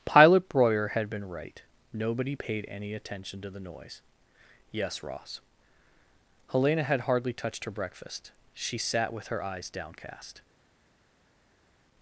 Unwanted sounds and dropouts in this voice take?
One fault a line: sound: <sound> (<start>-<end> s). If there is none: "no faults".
no faults